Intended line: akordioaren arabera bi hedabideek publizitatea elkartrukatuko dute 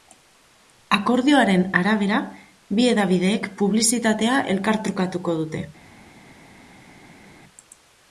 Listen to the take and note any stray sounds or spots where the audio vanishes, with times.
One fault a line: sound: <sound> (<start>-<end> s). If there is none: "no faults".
no faults